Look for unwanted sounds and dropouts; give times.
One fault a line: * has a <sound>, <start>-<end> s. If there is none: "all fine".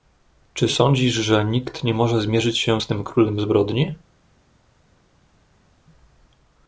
all fine